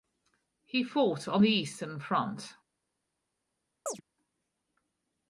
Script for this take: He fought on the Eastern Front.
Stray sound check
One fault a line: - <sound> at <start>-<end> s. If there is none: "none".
- chirp at 3.9-4.0 s